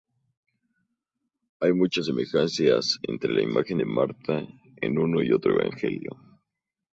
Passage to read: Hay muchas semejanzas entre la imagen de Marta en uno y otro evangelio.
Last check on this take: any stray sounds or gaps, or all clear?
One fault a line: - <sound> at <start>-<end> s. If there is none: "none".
none